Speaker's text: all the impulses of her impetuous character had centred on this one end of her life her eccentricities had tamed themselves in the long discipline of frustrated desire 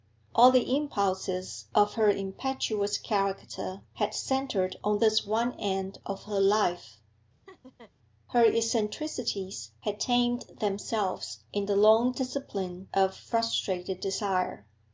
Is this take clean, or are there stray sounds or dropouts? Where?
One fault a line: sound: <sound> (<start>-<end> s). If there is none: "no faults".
sound: laugh (7.5-7.9 s)